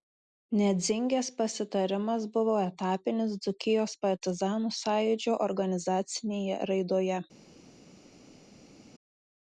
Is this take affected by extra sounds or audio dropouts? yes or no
no